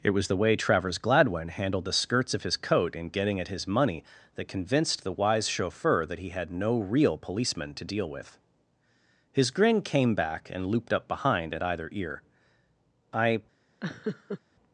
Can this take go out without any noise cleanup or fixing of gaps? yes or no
no